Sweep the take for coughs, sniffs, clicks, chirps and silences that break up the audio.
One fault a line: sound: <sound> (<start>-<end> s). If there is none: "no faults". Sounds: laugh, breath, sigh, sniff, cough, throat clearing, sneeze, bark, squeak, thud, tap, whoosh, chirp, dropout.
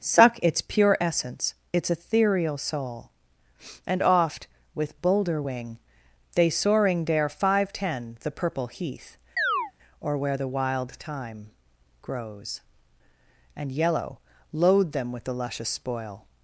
sound: chirp (9.4-9.7 s)